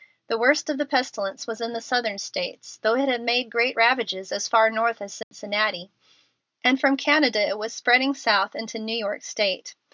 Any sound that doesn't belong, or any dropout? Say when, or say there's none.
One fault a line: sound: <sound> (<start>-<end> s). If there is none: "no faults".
sound: dropout (5.2-5.3 s)